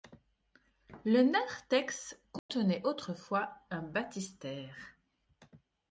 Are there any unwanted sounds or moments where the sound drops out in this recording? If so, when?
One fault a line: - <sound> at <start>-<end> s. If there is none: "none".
- dropout at 2.4-2.5 s